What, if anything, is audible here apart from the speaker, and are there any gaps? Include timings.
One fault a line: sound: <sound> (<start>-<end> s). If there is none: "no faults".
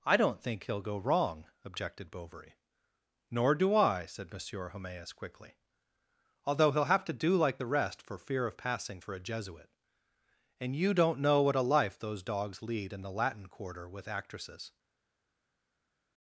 no faults